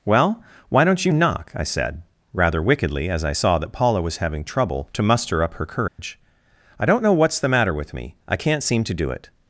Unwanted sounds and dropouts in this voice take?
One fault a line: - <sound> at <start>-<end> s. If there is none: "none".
- dropout at 5.9-6.0 s